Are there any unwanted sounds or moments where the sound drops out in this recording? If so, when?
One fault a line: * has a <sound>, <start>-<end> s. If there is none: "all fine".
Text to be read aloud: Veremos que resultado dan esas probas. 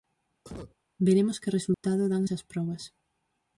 * has a cough, 0.4-0.8 s
* has a dropout, 1.7-1.8 s